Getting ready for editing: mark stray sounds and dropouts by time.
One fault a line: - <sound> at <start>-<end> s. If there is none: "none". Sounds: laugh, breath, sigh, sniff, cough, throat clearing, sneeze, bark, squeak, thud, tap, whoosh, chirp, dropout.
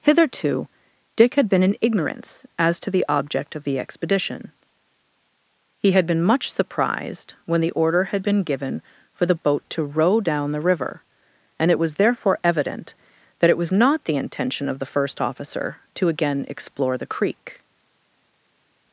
none